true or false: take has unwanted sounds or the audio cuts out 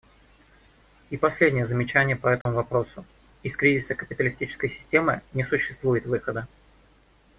true